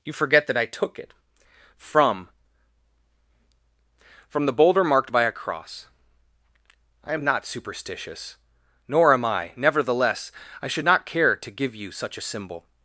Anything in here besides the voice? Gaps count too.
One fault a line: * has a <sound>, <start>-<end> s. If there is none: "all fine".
all fine